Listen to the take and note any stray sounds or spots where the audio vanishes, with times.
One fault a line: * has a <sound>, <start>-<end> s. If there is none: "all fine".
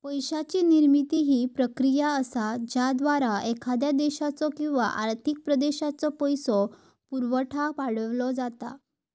all fine